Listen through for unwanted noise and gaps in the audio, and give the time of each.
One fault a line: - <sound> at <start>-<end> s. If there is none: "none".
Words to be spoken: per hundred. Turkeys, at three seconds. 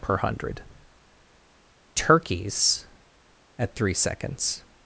none